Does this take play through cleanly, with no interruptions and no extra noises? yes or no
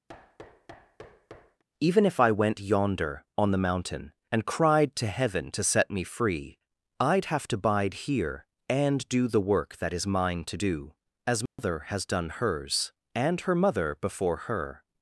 no